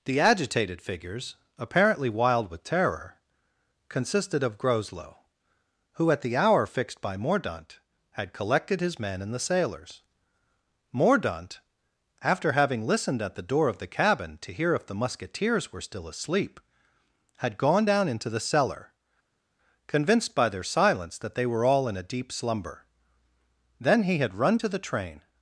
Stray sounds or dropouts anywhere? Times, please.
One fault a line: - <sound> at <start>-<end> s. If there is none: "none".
none